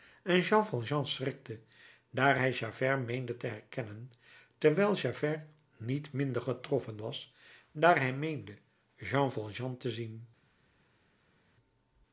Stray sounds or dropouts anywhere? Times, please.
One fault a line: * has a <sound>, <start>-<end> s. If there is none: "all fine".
all fine